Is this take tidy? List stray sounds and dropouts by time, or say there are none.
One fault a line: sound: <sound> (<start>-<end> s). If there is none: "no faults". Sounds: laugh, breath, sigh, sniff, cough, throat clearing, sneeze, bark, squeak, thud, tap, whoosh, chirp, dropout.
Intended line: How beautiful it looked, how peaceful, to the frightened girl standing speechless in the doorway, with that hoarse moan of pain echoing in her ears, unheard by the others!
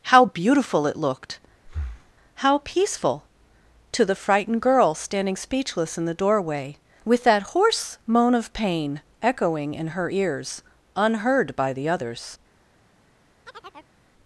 sound: breath (1.6-2.1 s)
sound: chirp (13.5-13.9 s)